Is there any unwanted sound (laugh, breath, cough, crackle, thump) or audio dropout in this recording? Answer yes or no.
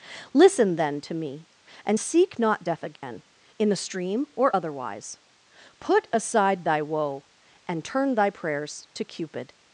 yes